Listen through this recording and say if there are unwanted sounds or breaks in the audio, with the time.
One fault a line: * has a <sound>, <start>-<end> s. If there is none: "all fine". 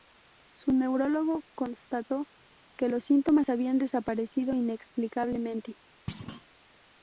* has a thud, 6.1-6.5 s